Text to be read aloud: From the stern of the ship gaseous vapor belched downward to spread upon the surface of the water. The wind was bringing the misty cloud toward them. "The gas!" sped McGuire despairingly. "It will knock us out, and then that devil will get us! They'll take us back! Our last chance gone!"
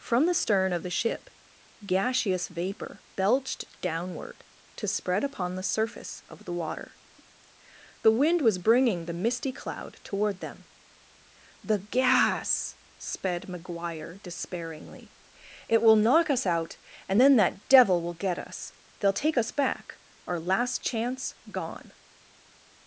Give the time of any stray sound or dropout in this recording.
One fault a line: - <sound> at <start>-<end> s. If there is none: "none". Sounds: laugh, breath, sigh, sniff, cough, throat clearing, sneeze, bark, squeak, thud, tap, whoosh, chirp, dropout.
none